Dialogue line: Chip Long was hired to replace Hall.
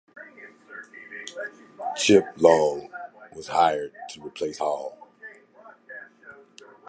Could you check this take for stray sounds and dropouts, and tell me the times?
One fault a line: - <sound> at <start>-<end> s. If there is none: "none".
none